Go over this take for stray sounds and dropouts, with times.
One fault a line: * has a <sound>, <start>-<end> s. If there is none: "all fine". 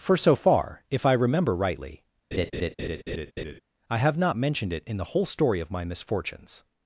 * has a laugh, 2.3-3.6 s